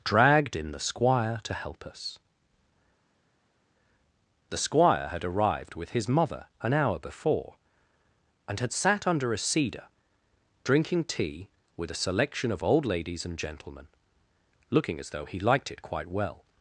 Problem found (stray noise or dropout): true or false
false